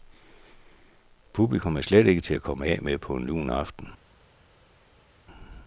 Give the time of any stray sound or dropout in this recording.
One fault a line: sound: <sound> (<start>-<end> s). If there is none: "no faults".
no faults